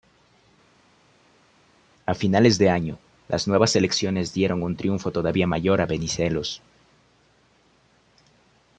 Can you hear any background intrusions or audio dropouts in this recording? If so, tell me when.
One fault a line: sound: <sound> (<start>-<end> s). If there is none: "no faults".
no faults